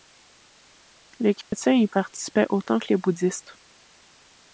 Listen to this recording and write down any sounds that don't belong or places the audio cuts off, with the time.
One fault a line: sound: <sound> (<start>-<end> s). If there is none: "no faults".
sound: dropout (1.4-1.5 s)